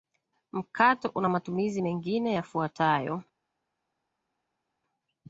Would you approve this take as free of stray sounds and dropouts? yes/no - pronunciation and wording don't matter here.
yes